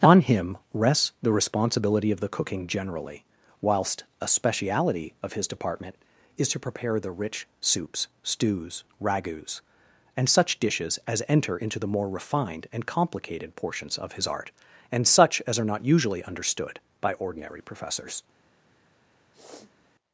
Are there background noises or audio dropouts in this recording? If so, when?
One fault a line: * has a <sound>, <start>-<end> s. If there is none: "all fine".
* has a sniff, 19.3-19.8 s